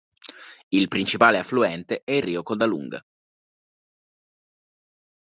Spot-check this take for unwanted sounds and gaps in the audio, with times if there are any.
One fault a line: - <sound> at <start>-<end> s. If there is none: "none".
none